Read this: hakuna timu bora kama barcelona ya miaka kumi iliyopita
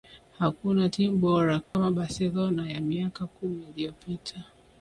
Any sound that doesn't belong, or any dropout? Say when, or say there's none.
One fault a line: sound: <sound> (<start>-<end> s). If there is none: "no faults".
sound: dropout (1.6-1.7 s)